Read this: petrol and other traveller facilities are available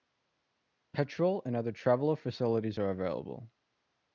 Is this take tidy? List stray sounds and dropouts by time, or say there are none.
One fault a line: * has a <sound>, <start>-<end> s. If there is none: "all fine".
all fine